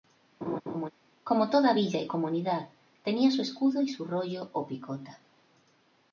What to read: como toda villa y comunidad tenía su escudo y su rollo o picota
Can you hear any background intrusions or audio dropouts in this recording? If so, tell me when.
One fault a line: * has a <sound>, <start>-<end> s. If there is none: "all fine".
* has a laugh, 0.4-0.9 s